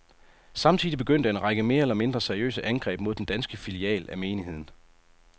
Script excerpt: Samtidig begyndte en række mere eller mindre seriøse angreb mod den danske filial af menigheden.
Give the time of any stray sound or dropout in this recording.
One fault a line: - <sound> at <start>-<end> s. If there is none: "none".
none